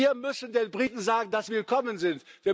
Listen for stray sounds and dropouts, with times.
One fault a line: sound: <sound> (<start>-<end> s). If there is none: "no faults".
no faults